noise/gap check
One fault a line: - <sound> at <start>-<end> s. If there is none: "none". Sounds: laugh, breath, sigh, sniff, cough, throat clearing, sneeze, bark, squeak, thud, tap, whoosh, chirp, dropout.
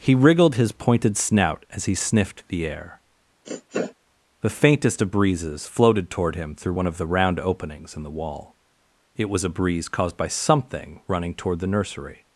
- sniff at 3.4-3.9 s